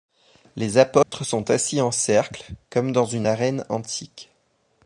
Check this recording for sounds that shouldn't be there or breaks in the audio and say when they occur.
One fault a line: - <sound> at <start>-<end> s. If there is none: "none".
- dropout at 1.0-1.1 s